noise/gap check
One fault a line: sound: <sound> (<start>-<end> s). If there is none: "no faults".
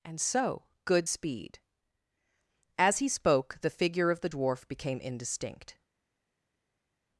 no faults